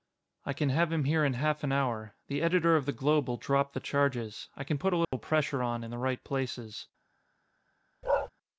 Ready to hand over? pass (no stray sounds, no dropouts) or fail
fail